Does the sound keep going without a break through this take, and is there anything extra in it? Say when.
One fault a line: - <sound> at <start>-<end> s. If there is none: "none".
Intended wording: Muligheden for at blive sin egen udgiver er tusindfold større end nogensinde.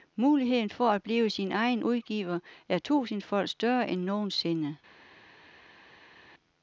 none